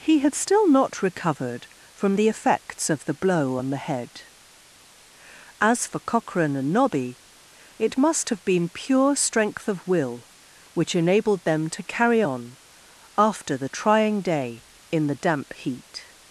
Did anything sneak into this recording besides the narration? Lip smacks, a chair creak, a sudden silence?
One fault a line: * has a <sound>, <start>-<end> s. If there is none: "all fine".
all fine